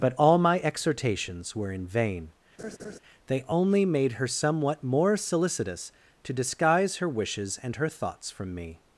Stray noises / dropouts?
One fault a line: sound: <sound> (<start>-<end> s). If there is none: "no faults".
sound: laugh (2.6-3.0 s)